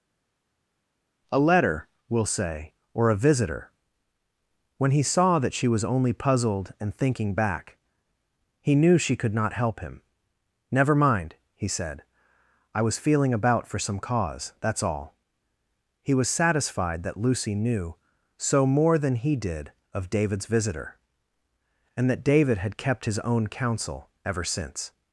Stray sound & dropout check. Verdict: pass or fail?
pass